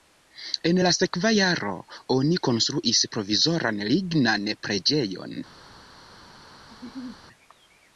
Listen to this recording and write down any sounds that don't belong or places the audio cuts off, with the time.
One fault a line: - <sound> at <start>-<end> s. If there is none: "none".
- laugh at 6.7-7.2 s